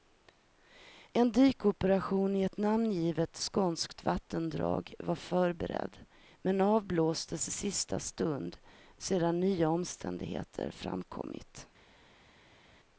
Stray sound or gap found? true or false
false